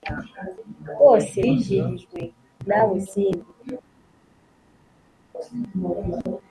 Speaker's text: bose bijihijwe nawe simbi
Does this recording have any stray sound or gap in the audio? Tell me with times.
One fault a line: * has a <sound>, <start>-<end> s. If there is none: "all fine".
all fine